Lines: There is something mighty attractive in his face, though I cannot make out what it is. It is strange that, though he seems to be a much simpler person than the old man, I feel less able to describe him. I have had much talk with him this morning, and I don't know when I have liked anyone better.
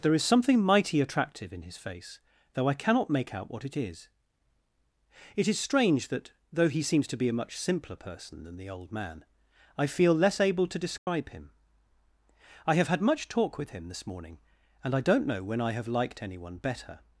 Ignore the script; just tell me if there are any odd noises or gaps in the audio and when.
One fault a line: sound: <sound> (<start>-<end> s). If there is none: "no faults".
sound: dropout (11.0-11.1 s)